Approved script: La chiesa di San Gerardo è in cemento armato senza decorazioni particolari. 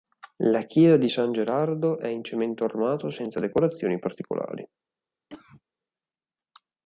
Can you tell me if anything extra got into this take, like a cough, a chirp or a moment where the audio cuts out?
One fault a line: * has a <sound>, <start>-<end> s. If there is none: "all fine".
* has a cough, 5.3-5.6 s